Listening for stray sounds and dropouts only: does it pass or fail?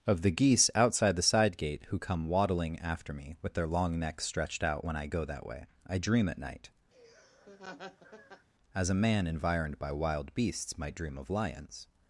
fail